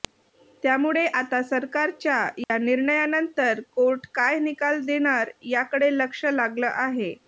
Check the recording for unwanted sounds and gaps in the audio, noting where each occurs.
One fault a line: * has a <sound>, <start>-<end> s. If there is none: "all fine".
* has a dropout, 2.4-2.5 s